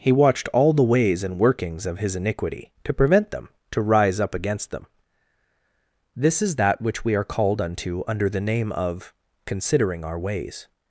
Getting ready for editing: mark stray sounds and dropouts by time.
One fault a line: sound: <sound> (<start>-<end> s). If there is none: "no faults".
no faults